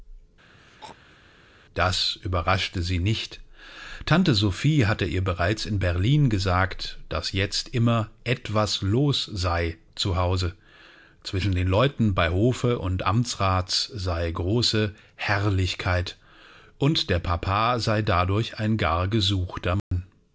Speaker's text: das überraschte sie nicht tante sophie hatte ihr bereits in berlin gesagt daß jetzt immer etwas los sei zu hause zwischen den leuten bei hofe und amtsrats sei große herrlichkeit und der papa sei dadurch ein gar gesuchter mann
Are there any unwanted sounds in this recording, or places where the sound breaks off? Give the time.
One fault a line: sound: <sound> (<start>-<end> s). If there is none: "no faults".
sound: throat clearing (0.5-1.2 s)
sound: dropout (19.8-19.9 s)